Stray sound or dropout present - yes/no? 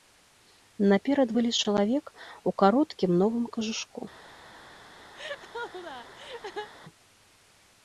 yes